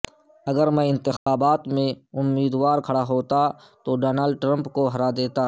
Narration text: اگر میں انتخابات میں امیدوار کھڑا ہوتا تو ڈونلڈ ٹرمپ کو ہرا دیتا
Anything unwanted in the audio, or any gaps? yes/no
yes